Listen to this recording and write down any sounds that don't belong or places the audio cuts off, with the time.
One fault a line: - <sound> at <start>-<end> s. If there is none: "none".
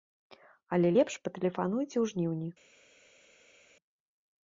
none